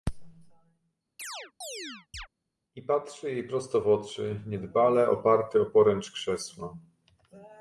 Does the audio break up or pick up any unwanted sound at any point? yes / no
yes